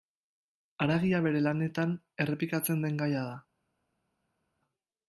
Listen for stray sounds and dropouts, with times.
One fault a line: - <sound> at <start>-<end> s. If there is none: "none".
none